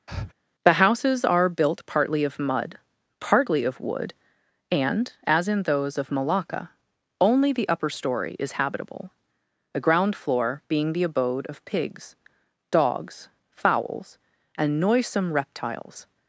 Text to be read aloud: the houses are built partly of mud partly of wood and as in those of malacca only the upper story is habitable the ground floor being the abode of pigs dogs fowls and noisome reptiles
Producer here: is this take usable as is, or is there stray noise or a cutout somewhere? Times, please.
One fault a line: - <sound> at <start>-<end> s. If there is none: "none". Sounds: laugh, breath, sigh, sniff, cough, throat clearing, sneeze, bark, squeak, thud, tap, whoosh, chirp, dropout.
- breath at 0.1-0.3 s